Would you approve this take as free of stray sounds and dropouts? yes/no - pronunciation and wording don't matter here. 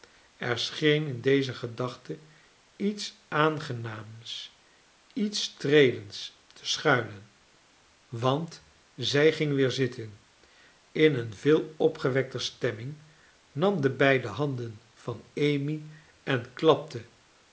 yes